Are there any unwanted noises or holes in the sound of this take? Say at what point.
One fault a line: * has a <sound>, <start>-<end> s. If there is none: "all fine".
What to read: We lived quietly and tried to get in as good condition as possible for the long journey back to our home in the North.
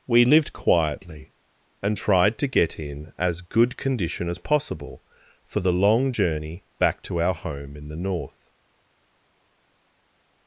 all fine